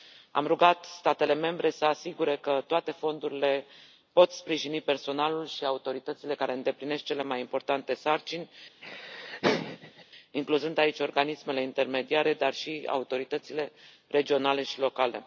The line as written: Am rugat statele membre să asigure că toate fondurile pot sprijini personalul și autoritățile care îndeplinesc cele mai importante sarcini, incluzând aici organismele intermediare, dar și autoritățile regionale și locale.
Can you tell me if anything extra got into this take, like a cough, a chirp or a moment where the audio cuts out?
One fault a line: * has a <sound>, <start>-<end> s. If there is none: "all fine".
* has a laugh, 8.8-10.0 s